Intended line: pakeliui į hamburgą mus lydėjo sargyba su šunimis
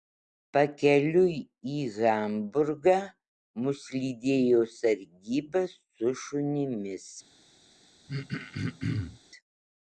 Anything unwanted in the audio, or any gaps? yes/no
yes